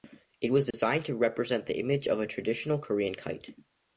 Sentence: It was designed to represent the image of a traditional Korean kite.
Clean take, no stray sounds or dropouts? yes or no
no